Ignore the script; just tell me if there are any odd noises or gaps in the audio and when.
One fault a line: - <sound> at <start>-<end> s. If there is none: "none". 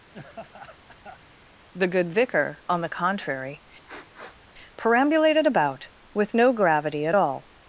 - laugh at 0.1-1.2 s
- sniff at 3.9-4.4 s